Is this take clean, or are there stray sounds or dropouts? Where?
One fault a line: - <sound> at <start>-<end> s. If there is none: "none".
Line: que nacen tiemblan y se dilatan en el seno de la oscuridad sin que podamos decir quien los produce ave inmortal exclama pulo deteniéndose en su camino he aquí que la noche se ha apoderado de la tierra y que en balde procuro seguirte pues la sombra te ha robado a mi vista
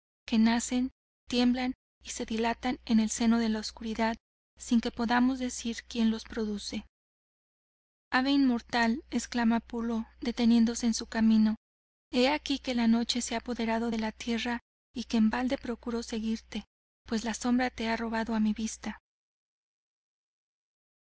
none